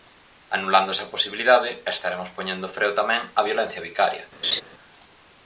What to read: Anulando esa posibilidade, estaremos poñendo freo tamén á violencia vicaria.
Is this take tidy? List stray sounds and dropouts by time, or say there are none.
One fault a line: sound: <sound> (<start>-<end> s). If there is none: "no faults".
sound: laugh (4.4-4.6 s)